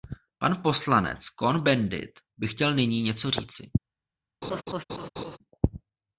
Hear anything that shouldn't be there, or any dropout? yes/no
yes